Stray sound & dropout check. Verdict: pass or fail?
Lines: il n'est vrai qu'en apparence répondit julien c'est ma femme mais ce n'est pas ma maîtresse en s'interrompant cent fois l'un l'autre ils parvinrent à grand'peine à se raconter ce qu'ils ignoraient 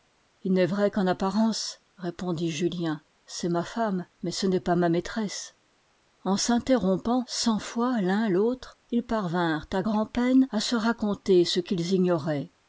pass